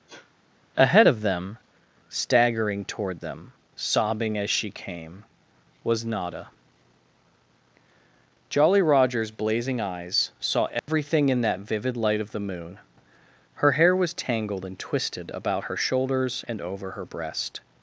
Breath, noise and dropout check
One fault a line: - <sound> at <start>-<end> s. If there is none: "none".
- sneeze at 0.1-0.3 s
- dropout at 10.8-10.9 s